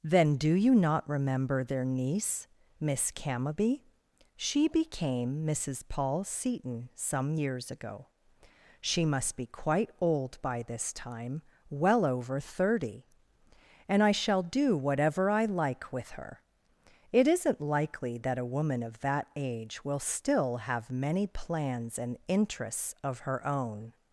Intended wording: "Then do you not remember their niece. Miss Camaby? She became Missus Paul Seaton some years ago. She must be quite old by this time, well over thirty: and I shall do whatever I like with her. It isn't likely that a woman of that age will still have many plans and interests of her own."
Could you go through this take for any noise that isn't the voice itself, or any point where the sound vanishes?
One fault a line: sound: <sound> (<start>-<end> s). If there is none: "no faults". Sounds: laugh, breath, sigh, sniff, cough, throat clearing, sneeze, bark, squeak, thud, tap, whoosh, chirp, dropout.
no faults